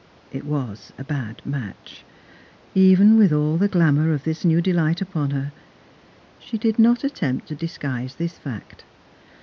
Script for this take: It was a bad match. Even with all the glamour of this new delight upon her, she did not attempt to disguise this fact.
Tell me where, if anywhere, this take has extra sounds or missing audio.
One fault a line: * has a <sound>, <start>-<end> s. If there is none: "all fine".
all fine